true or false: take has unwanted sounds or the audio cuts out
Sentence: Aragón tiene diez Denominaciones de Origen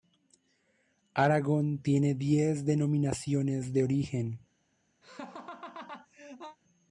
true